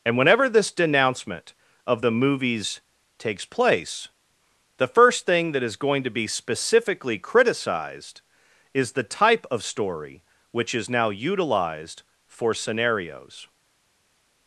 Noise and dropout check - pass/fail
pass